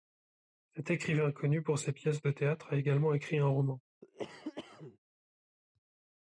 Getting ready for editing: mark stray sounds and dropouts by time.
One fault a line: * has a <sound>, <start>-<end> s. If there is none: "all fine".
* has a cough, 4.0-5.0 s